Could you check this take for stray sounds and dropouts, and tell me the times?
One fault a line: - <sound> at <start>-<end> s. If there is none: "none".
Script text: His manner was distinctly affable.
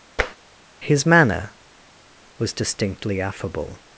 - tap at 0.2-0.4 s